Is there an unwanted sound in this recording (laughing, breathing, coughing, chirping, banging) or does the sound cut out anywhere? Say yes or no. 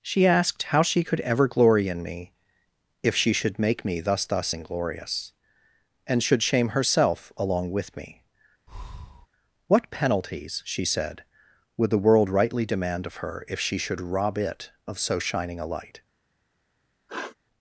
yes